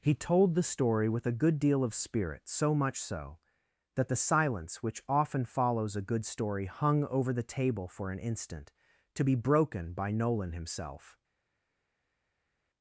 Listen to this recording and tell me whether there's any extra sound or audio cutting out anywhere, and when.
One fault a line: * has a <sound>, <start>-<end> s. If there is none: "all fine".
all fine